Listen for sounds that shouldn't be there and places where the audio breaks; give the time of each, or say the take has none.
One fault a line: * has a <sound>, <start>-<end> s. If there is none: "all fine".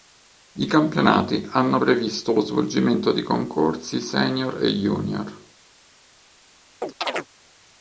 * has a chirp, 6.8-7.3 s